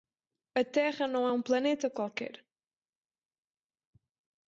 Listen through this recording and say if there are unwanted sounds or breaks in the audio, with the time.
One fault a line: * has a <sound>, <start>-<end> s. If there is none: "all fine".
all fine